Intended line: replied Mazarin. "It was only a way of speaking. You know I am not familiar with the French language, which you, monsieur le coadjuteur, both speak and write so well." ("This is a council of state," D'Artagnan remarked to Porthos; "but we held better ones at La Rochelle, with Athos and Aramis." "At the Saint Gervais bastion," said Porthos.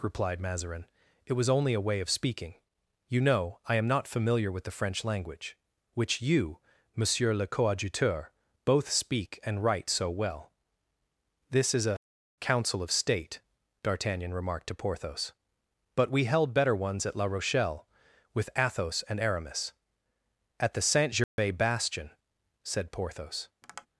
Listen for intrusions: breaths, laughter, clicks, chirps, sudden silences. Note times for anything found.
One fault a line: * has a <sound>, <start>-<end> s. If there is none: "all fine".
* has a dropout, 21.2-21.4 s
* has a tap, 23.6-23.9 s